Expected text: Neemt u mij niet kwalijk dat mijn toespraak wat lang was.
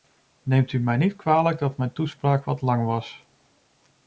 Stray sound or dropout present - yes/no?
no